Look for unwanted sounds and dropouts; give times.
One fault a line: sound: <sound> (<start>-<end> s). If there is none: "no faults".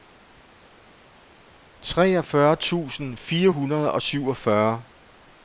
no faults